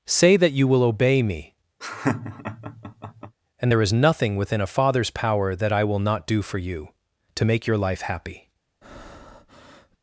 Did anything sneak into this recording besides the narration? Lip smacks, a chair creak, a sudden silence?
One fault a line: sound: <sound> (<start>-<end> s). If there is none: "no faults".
sound: laugh (1.8-3.4 s)
sound: breath (8.8-10.0 s)